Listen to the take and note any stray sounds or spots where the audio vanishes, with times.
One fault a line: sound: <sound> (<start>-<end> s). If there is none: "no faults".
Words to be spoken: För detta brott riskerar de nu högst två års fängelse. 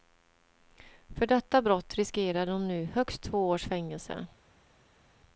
no faults